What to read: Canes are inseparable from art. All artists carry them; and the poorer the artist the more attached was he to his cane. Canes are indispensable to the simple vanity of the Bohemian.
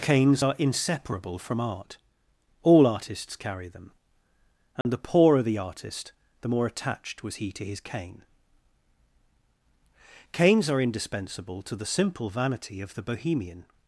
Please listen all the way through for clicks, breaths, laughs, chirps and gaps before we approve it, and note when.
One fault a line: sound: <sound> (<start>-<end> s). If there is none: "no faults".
sound: dropout (4.8-4.9 s)